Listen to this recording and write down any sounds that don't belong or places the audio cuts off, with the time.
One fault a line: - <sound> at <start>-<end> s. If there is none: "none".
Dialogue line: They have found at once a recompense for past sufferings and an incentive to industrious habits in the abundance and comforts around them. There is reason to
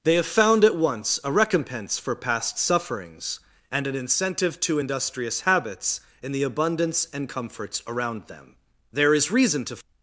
none